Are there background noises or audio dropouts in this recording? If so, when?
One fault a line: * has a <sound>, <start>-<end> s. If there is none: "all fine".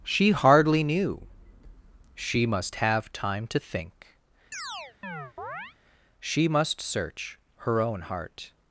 * has a chirp, 4.5-5.8 s